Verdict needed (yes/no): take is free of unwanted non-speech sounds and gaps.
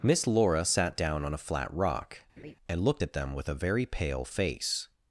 no